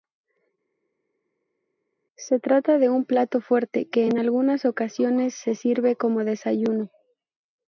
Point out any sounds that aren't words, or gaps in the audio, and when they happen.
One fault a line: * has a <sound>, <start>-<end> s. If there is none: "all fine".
all fine